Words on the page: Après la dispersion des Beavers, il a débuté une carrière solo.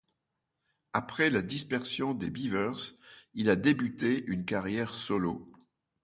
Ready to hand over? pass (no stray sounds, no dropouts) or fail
pass